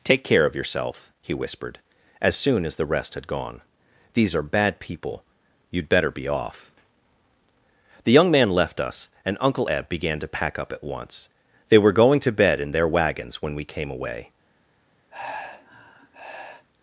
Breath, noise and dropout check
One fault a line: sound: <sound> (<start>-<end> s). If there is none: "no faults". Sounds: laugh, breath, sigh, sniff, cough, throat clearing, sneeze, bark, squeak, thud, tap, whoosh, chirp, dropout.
sound: sigh (15.1-16.7 s)